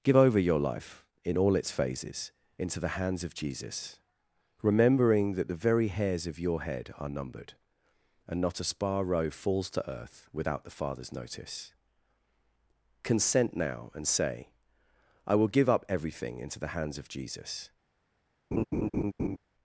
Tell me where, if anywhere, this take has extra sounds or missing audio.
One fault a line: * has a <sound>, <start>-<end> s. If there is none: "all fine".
* has a laugh, 18.5-19.4 s